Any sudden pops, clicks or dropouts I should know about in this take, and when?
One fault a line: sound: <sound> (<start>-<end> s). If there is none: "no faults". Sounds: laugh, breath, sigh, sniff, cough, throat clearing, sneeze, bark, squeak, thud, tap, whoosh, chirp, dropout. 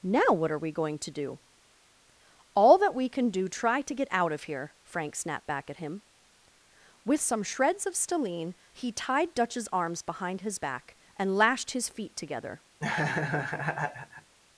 sound: laugh (12.8-14.3 s)